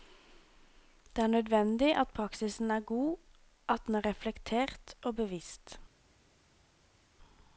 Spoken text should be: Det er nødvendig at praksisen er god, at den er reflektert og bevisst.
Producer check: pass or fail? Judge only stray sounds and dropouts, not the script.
pass